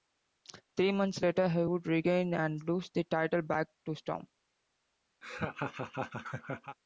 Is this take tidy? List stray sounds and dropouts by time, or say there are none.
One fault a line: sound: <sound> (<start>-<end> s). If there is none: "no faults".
sound: laugh (5.2-6.8 s)